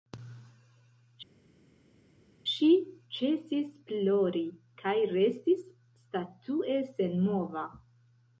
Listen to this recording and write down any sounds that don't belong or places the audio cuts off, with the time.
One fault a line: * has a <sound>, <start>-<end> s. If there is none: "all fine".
all fine